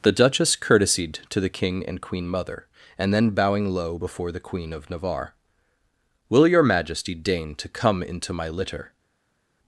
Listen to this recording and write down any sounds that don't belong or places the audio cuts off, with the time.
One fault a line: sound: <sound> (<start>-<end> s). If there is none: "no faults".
no faults